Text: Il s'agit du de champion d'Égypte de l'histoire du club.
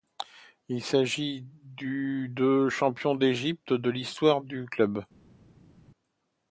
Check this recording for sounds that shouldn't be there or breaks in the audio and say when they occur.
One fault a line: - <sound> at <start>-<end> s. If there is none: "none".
none